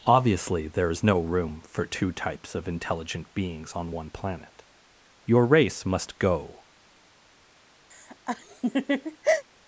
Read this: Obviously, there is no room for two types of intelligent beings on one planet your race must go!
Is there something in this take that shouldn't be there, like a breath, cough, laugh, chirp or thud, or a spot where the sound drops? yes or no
yes